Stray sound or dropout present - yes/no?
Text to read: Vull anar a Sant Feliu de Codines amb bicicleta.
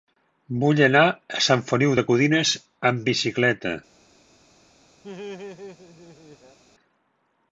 yes